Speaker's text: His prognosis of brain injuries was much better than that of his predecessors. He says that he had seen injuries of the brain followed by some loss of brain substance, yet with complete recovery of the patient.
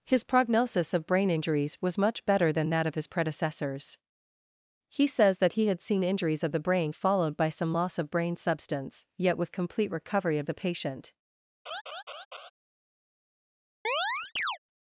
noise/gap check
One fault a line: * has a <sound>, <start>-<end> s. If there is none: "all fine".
* has a laugh, 11.7-12.5 s
* has a chirp, 13.8-14.6 s